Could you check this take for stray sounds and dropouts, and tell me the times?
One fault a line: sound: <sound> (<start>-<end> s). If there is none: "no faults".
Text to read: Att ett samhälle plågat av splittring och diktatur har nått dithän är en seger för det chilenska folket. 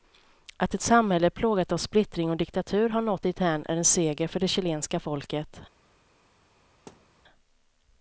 sound: thud (6.9-7.2 s)